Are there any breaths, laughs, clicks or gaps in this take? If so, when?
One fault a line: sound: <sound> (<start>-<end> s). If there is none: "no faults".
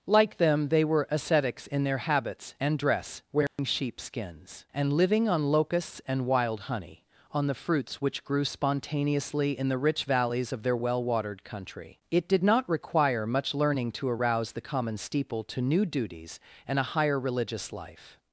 sound: dropout (3.5-3.6 s)